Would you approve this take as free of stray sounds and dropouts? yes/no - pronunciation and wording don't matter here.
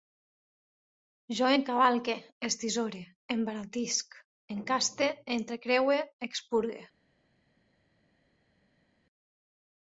yes